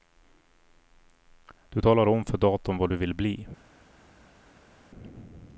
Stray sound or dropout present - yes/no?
no